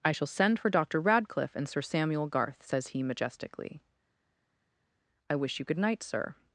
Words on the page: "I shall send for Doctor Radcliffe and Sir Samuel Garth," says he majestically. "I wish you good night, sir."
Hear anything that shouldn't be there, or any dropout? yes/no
no